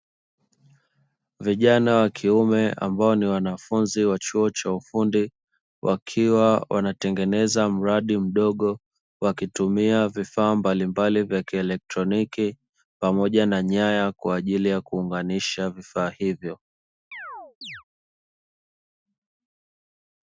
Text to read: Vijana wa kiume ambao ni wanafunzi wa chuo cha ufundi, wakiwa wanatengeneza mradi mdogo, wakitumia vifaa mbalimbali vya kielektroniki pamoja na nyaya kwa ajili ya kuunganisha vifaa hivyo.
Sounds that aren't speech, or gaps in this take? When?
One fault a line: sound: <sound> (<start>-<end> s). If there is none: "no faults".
sound: chirp (17.1-17.8 s)